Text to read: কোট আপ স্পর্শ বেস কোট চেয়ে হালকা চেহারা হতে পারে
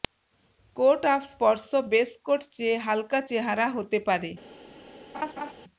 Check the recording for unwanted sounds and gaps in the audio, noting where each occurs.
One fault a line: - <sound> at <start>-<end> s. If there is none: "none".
- laugh at 5.1-5.5 s